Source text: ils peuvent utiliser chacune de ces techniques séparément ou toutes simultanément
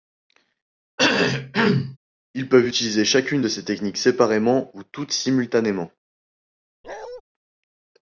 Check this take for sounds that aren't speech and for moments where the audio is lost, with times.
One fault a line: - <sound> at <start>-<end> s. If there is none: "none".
- cough at 1.0-2.0 s
- bark at 6.8-7.2 s